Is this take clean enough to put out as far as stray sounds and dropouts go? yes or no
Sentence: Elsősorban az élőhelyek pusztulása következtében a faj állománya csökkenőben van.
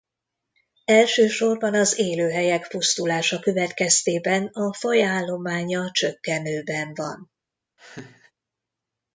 no